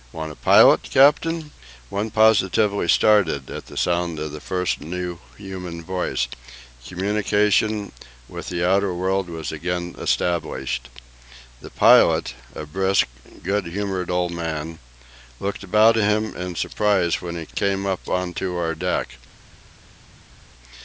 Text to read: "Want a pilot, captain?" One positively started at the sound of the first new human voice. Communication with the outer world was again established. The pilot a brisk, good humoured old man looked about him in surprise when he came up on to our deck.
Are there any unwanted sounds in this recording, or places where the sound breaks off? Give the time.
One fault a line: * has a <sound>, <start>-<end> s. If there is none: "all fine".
all fine